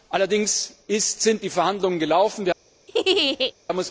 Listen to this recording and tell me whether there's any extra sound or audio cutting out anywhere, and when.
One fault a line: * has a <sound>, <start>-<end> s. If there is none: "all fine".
* has a laugh, 2.9-3.5 s